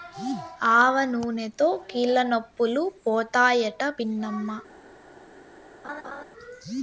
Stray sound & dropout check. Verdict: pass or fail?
fail